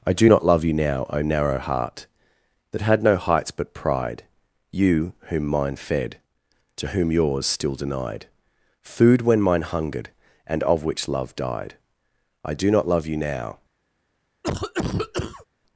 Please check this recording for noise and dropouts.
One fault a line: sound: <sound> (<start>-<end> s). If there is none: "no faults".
sound: cough (14.4-15.5 s)